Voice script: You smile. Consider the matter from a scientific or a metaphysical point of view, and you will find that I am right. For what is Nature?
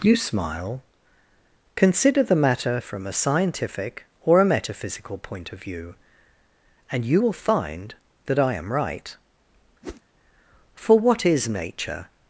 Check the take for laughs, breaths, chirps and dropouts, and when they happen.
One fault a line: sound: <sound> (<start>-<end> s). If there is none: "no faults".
sound: whoosh (9.8-10.0 s)